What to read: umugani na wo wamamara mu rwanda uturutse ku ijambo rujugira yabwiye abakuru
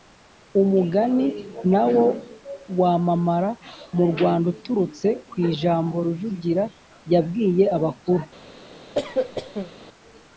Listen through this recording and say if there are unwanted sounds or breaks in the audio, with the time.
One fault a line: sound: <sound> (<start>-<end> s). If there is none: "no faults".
sound: cough (8.9-9.7 s)